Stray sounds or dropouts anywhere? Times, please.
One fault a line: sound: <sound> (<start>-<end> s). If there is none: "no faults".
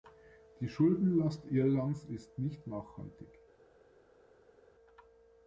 no faults